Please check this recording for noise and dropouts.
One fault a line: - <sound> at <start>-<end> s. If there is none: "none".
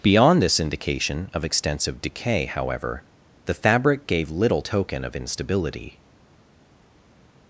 none